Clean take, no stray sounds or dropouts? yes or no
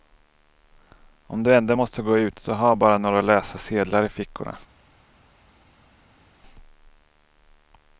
yes